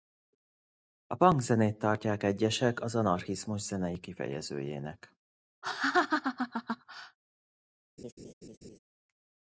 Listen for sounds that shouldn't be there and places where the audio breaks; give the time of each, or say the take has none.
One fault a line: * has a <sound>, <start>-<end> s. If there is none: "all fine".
* has a laugh, 5.6-7.2 s
* has a laugh, 8.0-8.8 s